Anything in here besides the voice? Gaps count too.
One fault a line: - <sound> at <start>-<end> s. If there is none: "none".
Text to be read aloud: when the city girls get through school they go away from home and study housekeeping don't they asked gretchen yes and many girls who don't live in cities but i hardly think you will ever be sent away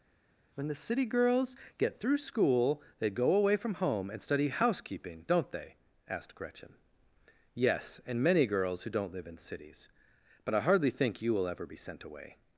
none